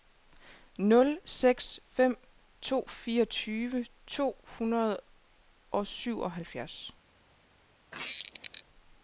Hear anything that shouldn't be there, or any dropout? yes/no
yes